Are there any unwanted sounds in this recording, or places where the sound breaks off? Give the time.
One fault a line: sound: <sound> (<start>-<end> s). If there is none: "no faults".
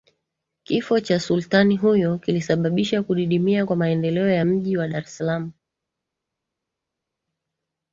no faults